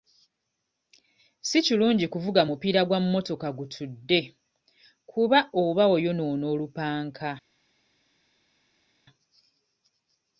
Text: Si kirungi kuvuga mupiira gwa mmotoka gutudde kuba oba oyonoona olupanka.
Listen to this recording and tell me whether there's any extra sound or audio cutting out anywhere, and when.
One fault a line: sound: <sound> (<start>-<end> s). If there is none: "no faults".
no faults